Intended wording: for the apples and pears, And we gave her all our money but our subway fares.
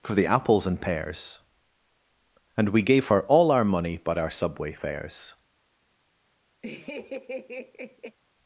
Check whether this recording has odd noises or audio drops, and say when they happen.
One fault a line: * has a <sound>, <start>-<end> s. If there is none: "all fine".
* has a laugh, 6.6-8.2 s